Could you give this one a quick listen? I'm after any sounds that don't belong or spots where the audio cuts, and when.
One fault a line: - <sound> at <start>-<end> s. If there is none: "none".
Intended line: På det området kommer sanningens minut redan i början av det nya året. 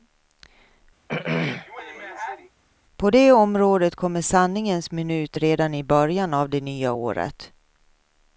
- throat clearing at 1.1-2.5 s